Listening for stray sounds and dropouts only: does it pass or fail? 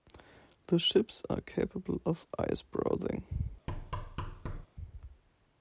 fail